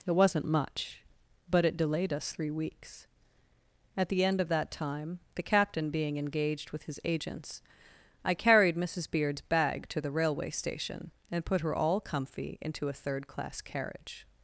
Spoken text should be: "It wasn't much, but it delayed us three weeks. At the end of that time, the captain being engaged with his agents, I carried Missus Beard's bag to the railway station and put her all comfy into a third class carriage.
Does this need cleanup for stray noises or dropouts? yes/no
no